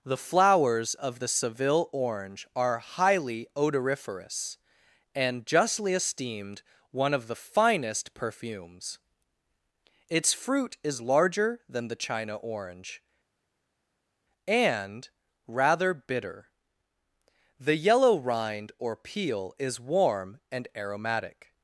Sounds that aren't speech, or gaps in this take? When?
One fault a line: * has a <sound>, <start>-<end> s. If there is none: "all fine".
all fine